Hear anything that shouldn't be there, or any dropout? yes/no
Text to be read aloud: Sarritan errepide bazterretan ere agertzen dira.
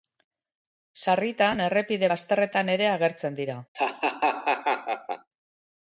yes